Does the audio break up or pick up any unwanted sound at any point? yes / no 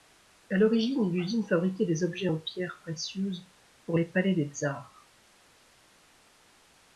no